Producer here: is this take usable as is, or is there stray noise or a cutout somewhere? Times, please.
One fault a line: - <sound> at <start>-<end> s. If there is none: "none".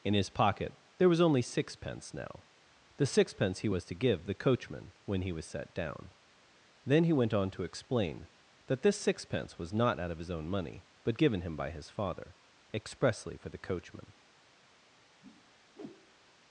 - whoosh at 15.2-16.3 s